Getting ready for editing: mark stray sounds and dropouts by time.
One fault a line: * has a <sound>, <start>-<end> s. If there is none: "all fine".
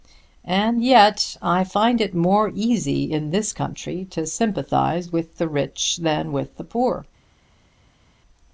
all fine